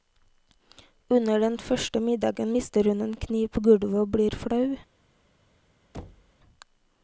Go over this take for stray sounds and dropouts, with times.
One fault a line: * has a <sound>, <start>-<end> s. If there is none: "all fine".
* has a thud, 5.9-6.3 s